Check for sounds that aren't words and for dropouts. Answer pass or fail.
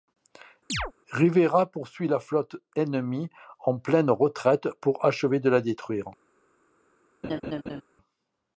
fail